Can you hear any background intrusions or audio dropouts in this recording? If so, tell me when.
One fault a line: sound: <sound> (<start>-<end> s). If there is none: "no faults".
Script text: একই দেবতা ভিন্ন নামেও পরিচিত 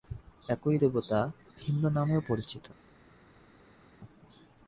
no faults